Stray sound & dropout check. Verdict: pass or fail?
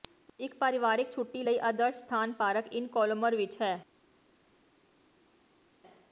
pass